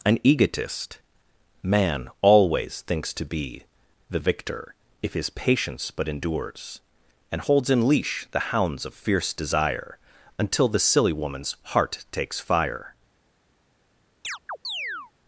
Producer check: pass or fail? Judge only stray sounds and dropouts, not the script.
fail